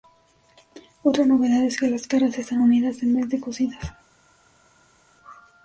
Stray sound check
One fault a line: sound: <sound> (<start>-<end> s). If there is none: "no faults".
no faults